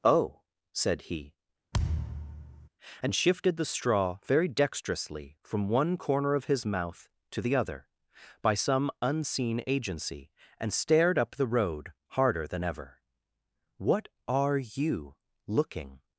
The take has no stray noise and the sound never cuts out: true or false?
false